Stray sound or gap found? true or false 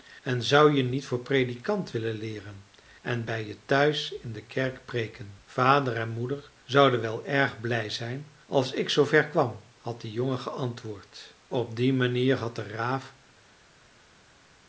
false